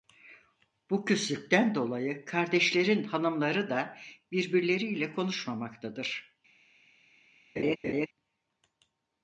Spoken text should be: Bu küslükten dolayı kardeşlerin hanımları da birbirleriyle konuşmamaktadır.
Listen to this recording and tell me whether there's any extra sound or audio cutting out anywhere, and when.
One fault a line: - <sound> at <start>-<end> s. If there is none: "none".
- laugh at 7.6-8.1 s